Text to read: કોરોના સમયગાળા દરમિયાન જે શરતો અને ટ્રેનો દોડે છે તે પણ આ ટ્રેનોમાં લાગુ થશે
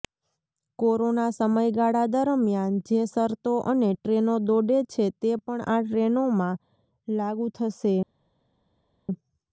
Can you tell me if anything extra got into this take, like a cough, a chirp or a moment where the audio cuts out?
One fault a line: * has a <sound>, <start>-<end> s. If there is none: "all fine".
all fine